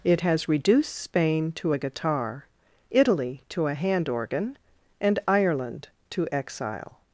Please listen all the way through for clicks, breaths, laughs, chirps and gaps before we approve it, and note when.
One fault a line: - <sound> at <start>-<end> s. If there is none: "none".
none